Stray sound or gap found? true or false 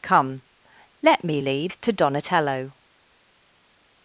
false